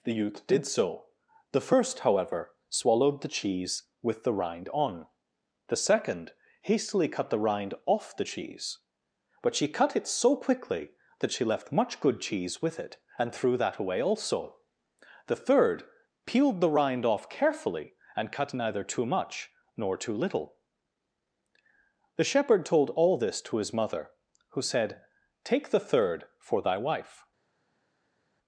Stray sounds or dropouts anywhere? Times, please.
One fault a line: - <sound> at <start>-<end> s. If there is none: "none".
none